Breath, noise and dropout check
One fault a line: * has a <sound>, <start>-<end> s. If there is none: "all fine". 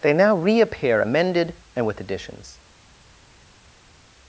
all fine